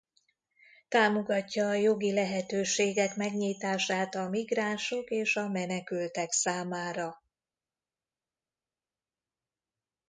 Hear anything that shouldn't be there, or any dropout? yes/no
no